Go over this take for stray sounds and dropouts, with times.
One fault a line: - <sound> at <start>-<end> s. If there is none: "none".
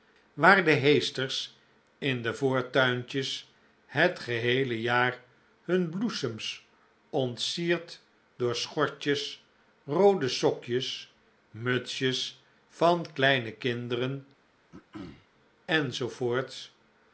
- throat clearing at 14.7-15.3 s